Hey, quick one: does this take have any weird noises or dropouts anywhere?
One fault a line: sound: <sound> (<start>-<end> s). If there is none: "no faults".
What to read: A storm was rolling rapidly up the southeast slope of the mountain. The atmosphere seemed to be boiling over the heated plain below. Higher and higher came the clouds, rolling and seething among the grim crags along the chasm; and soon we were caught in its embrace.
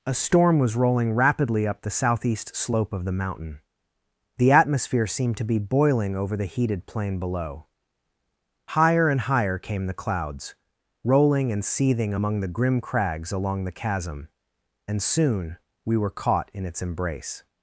no faults